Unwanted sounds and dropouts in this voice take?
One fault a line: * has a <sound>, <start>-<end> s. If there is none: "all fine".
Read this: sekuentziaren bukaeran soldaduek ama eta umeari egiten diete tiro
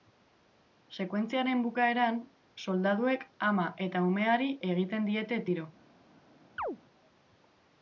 * has a chirp, 6.6-6.8 s